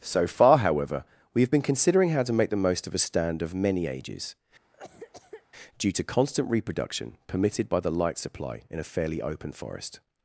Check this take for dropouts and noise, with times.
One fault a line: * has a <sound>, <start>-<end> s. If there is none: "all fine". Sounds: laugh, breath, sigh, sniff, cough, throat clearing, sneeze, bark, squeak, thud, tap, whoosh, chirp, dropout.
* has a cough, 4.7-5.5 s